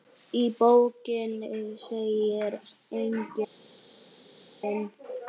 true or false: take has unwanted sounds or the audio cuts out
false